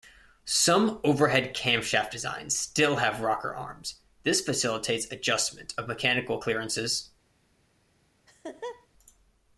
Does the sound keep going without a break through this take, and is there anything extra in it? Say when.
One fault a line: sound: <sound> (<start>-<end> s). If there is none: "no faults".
sound: laugh (8.3-8.9 s)